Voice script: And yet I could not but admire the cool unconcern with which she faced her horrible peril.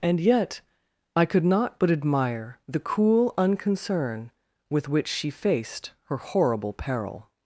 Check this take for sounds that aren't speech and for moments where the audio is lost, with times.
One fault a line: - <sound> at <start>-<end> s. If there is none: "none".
none